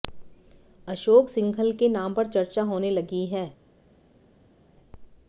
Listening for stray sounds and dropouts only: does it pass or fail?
pass